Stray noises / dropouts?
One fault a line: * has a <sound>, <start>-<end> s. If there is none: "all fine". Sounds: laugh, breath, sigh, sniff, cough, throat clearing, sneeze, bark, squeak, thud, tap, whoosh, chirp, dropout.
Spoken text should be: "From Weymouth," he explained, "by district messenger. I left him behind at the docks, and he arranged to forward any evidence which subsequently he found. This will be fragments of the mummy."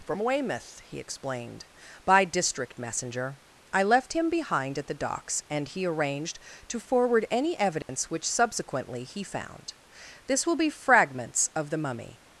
* has a dropout, 7.8-7.9 s